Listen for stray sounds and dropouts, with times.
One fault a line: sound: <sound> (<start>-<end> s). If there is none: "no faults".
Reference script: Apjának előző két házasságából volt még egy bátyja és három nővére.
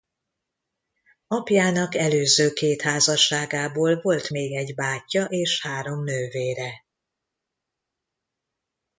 no faults